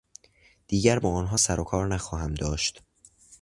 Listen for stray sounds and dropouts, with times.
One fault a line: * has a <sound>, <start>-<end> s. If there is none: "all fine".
all fine